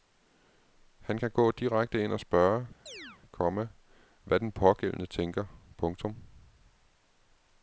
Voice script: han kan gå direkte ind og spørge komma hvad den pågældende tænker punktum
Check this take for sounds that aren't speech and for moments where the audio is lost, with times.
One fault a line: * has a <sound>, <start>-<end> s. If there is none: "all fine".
* has a chirp, 2.9-3.2 s